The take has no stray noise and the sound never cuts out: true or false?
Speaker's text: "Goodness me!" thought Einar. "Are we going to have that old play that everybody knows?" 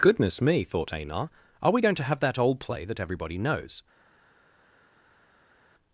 true